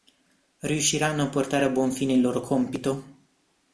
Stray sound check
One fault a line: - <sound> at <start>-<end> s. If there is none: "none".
none